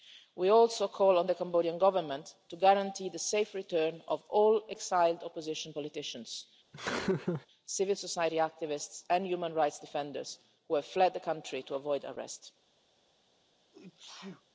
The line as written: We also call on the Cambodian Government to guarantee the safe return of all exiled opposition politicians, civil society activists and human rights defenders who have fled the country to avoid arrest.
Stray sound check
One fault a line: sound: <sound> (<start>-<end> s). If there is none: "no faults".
sound: laugh (6.7-7.5 s)
sound: sneeze (13.7-14.4 s)